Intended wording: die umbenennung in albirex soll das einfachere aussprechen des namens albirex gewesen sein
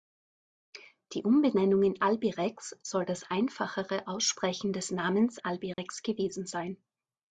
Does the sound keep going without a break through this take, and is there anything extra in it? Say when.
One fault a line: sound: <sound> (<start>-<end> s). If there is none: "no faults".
sound: dropout (5.7-5.8 s)